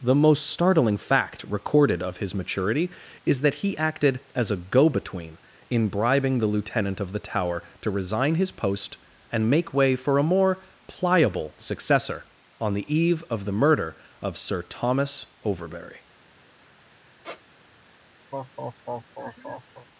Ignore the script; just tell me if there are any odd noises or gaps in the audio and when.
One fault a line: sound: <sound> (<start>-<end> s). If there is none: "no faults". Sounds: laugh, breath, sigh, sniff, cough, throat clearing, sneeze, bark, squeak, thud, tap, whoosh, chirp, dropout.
sound: squeak (17.2-17.4 s)
sound: laugh (18.3-19.9 s)